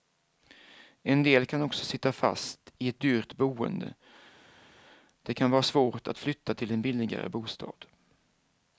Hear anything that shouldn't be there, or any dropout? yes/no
no